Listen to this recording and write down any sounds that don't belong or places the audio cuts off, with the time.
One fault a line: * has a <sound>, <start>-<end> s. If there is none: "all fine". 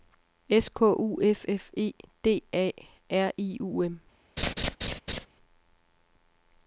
* has a laugh, 4.4-5.3 s